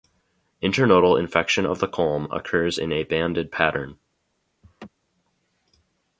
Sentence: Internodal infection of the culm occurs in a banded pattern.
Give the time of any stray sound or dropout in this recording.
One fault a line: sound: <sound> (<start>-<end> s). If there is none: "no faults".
sound: laugh (4.6-4.9 s)